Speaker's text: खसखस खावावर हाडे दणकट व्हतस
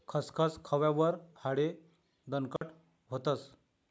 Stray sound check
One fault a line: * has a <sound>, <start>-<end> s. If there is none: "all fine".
* has a dropout, 2.6-2.6 s